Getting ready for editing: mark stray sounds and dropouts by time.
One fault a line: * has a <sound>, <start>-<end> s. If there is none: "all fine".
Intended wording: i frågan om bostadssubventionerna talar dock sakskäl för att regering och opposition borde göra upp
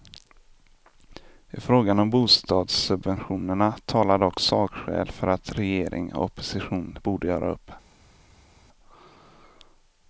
all fine